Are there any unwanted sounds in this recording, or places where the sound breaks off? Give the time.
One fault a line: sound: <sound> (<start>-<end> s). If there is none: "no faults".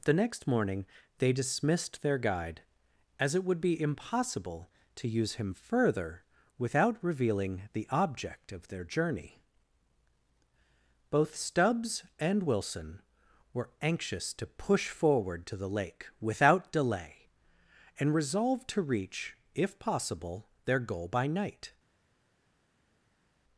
no faults